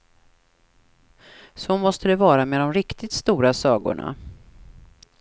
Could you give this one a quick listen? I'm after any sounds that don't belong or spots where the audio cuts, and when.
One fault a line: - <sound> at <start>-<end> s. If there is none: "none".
none